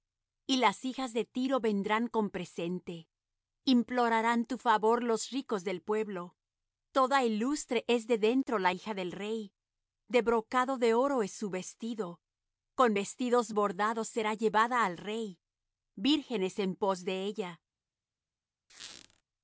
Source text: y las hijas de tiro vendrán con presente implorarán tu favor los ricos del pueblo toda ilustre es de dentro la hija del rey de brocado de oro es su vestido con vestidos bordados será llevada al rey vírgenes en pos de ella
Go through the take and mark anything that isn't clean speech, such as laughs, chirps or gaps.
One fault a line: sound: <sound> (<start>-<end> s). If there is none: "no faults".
sound: squeak (18.7-19.2 s)